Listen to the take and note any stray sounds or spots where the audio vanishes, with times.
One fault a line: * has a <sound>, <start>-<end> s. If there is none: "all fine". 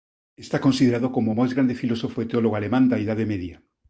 all fine